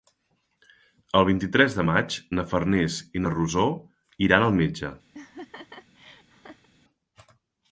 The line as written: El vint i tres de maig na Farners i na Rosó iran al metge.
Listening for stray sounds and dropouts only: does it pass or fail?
fail